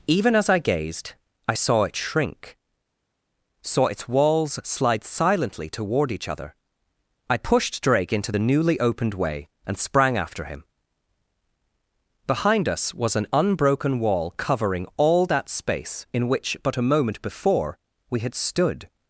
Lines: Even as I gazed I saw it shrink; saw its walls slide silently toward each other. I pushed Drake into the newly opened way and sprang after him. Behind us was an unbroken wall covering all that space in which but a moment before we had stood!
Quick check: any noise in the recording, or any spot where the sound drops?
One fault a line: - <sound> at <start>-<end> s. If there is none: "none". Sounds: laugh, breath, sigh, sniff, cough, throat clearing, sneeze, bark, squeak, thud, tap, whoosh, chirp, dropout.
none